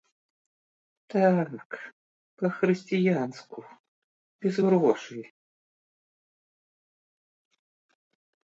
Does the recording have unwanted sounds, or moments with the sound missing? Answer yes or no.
no